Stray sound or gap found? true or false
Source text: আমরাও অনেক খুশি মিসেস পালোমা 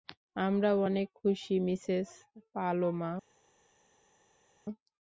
false